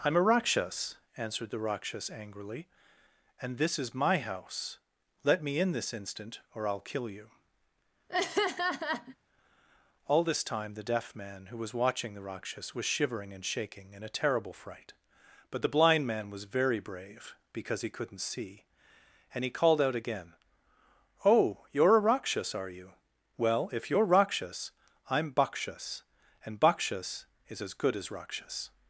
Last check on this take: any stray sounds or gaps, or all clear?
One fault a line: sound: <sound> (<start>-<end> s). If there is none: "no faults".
sound: laugh (8.1-9.2 s)